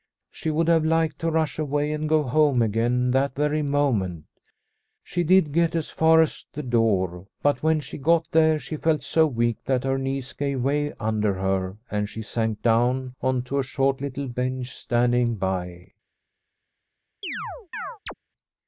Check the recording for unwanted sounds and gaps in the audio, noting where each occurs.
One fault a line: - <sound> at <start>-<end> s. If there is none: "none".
- chirp at 17.2-18.1 s